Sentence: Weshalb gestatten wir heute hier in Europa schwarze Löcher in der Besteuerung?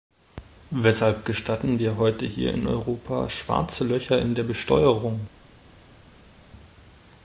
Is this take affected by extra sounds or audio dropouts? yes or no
no